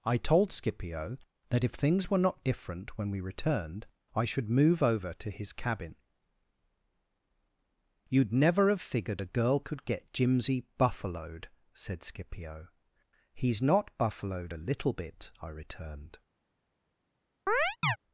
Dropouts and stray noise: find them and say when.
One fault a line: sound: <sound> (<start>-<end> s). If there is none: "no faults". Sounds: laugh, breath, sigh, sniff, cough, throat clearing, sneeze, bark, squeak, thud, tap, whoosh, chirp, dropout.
sound: chirp (17.5-18.0 s)